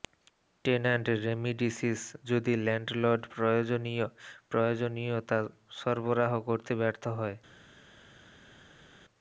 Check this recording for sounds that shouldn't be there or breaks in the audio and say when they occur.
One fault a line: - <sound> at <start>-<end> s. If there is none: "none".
none